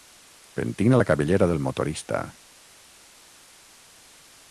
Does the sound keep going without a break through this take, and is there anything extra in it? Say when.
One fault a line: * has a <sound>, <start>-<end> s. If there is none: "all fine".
all fine